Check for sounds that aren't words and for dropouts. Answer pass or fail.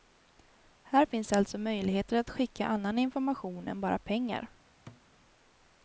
fail